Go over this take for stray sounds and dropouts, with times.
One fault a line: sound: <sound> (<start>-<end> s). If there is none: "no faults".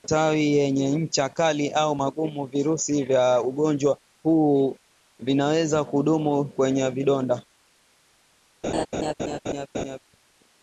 sound: laugh (8.6-10.0 s)